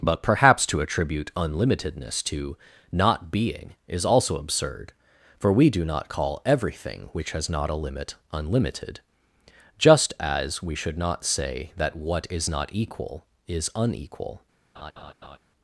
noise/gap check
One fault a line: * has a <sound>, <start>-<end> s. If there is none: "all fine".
* has a laugh, 14.8-15.4 s